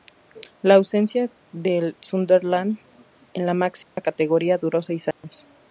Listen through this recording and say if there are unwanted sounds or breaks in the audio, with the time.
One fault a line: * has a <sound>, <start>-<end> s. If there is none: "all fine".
* has a dropout, 3.8-4.0 s
* has a dropout, 5.1-5.2 s